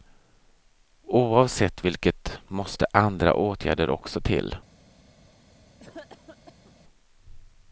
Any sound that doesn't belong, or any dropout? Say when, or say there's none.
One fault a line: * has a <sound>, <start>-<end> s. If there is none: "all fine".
* has a cough, 5.8-6.7 s